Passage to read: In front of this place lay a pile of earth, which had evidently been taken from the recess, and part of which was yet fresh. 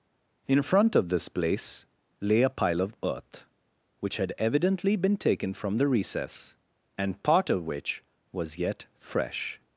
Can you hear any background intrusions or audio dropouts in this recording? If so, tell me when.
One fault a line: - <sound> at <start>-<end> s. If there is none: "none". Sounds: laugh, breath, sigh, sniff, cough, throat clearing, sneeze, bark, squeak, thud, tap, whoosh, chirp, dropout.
none